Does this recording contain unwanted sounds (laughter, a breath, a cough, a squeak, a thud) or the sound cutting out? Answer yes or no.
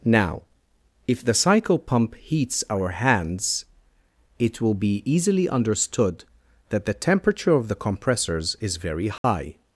yes